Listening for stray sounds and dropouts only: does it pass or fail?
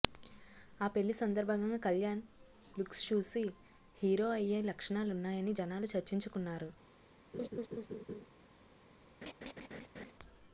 fail